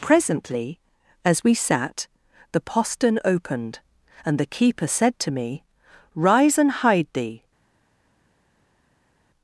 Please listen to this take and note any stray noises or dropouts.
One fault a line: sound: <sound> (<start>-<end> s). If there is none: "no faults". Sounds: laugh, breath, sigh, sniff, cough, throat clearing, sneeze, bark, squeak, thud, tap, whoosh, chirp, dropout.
no faults